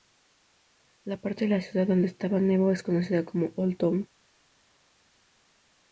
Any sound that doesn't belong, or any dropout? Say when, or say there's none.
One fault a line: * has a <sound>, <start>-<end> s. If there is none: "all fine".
all fine